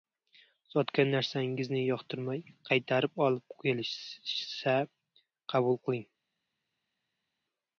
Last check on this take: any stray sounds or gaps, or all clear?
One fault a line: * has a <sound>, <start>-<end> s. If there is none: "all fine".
all fine